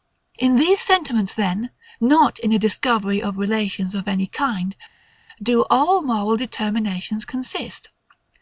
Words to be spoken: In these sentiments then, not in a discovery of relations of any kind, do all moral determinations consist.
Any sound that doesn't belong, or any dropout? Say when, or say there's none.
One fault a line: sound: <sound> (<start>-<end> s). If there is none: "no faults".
no faults